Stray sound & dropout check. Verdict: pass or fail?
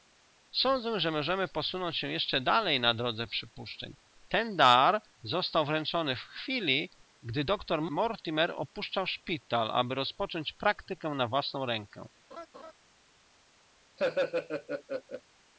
fail